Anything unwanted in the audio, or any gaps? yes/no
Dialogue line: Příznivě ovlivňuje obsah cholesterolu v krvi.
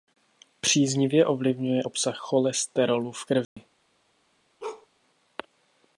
yes